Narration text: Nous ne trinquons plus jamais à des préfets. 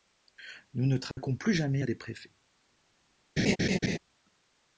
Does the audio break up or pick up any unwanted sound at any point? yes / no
yes